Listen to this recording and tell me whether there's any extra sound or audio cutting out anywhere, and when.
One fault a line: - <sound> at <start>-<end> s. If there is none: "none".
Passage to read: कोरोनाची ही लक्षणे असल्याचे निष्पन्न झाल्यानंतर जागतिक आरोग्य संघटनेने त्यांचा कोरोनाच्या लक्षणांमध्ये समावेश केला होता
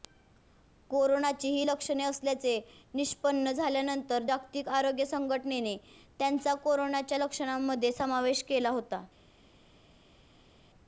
none